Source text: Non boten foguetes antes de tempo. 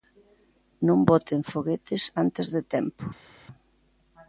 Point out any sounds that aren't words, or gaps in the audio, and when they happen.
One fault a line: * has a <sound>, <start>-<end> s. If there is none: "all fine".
all fine